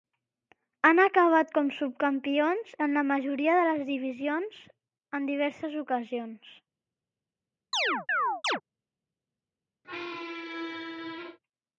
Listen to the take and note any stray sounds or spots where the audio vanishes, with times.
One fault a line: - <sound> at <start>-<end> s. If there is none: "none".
- chirp at 7.7-8.6 s
- squeak at 9.8-11.4 s